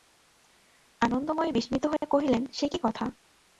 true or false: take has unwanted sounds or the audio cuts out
true